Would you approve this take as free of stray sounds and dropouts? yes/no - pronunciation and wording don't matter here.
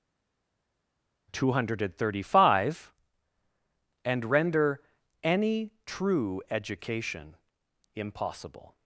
yes